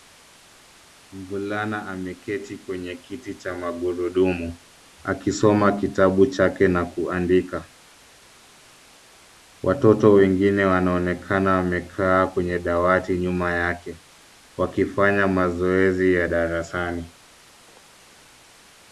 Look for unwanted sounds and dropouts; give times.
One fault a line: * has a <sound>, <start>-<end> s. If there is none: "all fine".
all fine